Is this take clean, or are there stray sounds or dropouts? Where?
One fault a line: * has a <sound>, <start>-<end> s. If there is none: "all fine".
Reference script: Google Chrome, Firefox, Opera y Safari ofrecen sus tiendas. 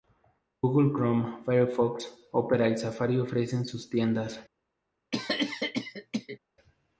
* has a cough, 5.1-6.4 s